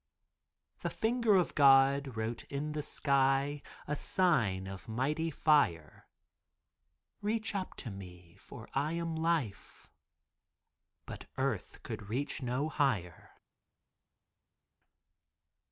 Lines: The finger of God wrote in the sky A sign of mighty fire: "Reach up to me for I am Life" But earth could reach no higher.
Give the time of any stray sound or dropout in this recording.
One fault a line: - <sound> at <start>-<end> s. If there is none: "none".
none